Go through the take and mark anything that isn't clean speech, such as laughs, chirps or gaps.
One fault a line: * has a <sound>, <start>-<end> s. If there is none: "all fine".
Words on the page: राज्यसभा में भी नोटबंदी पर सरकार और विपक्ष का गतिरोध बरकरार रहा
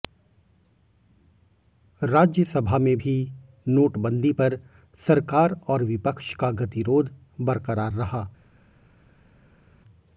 all fine